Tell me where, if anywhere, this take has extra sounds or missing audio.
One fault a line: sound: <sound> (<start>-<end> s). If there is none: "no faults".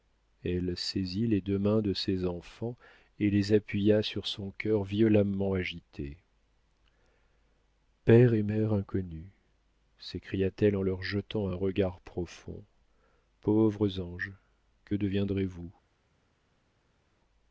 no faults